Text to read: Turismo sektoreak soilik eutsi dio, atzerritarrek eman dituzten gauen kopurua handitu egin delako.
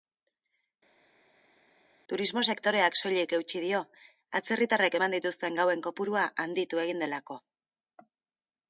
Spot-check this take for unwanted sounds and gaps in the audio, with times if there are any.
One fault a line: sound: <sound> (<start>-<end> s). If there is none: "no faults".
no faults